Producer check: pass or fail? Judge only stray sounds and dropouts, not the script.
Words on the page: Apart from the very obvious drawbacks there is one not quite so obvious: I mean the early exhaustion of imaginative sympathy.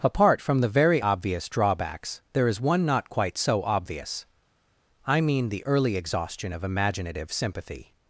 pass